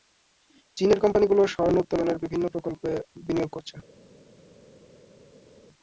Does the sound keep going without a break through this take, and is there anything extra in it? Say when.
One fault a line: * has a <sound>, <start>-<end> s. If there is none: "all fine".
all fine